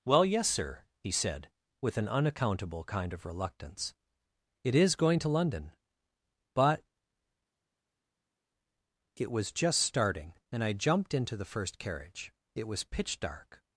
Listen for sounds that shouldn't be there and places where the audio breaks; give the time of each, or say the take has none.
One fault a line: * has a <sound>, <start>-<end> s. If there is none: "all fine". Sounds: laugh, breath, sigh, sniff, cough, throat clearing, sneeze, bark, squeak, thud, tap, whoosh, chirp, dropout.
all fine